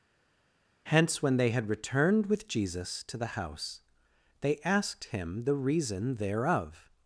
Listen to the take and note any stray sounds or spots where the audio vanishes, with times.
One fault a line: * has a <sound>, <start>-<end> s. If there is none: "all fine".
all fine